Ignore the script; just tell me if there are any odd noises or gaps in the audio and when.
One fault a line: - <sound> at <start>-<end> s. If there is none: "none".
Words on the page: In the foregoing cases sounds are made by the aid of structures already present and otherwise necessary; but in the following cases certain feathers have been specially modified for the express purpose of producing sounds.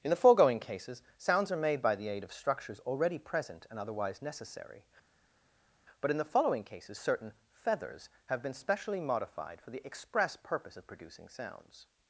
none